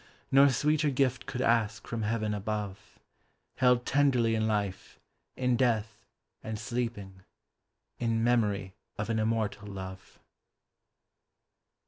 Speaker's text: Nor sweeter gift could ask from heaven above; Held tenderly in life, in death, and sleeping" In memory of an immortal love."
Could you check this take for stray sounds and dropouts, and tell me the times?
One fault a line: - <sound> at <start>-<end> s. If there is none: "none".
none